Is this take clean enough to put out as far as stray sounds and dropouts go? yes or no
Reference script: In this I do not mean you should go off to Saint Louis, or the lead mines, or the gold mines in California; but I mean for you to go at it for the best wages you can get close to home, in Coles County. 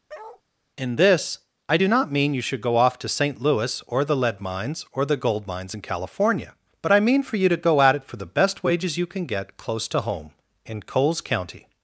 no